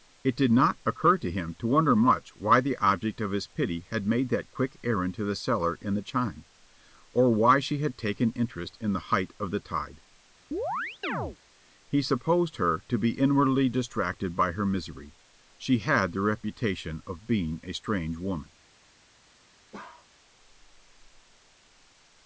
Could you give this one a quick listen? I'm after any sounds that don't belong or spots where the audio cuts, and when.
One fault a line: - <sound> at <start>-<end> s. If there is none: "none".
- chirp at 10.5-11.4 s
- bark at 19.7-20.1 s